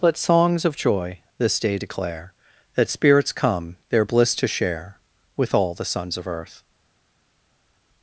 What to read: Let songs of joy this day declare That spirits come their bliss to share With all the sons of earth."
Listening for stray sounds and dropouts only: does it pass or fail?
pass